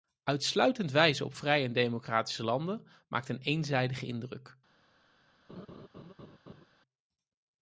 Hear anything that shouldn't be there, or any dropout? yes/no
yes